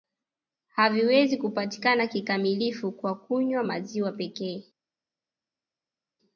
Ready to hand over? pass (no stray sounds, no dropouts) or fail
pass